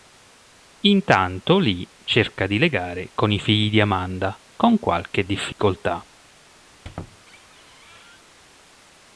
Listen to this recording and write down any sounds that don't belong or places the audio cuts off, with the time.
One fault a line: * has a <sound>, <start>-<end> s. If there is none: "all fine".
* has a dropout, 5.5-5.6 s
* has a squeak, 6.7-8.2 s